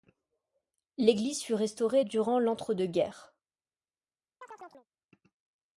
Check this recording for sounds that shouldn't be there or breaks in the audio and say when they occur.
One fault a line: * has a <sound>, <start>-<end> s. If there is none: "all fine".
* has a chirp, 4.4-4.9 s